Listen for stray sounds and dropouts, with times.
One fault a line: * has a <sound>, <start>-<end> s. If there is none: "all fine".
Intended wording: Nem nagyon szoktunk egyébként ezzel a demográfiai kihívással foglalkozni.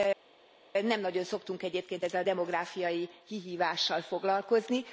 all fine